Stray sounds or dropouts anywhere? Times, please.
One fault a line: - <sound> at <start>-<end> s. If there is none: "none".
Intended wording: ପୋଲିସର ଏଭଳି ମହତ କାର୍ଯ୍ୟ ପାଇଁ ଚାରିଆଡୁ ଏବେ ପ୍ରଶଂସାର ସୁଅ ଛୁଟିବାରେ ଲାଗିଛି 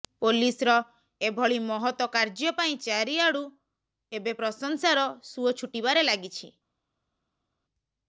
none